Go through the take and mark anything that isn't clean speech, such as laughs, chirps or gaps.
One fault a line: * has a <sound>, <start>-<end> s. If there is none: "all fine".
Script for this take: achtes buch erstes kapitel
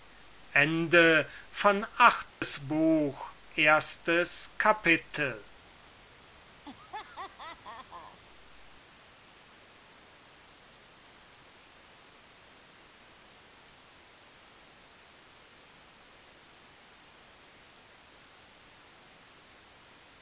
* has a dropout, 2.3-2.4 s
* has a laugh, 6.7-8.2 s